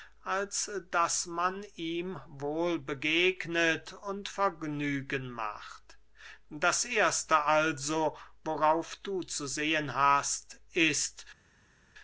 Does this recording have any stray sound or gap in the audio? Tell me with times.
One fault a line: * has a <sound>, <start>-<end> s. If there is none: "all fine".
all fine